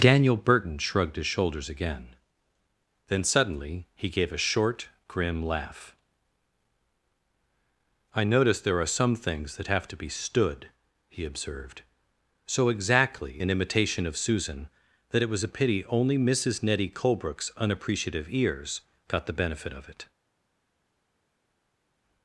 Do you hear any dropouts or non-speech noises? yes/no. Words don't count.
no